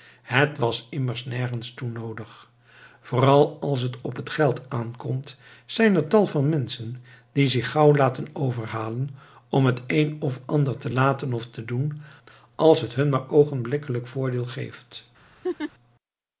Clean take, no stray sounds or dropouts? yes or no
no